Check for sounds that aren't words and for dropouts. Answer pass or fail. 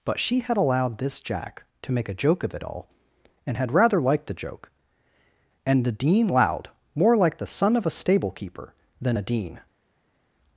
pass